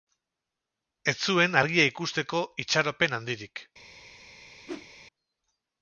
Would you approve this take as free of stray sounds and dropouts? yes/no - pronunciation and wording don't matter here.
no